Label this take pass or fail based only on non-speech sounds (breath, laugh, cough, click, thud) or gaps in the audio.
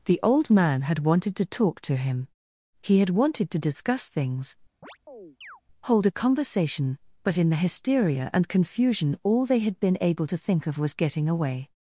fail